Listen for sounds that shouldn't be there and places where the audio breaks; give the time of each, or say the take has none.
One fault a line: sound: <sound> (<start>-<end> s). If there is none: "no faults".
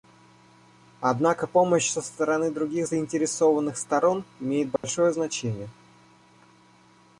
sound: dropout (4.8-4.8 s)